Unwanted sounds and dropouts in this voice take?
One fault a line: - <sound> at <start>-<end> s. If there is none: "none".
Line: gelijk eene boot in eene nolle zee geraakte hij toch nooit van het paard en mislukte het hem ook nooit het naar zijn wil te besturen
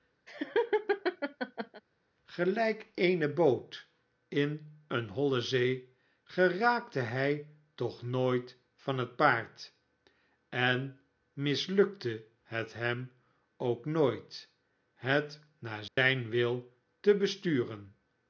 - laugh at 0.3-1.8 s
- dropout at 15.9-16.0 s